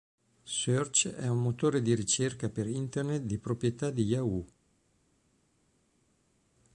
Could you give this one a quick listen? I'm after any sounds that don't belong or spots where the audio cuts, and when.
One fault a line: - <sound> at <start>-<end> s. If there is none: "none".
none